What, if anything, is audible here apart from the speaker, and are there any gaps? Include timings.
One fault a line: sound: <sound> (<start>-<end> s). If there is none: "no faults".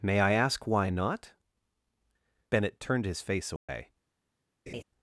sound: dropout (3.6-3.7 s)
sound: laugh (4.7-4.8 s)